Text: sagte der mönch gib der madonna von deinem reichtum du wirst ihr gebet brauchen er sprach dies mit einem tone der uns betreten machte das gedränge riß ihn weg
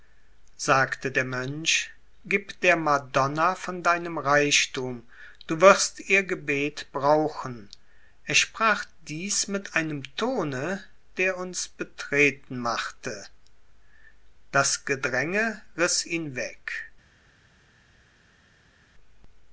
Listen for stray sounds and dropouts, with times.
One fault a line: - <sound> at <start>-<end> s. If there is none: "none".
none